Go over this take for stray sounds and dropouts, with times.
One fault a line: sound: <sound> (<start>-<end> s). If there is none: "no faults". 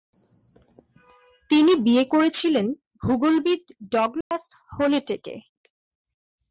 sound: dropout (4.2-4.3 s)